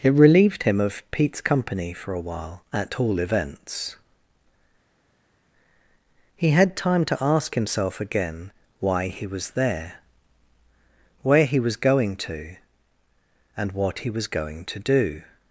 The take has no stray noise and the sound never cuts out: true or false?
true